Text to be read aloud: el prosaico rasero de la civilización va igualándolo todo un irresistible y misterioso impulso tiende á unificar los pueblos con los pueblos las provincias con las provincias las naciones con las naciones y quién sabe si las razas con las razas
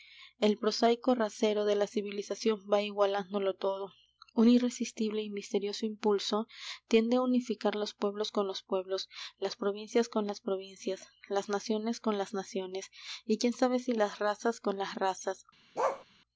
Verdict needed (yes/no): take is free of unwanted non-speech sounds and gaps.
no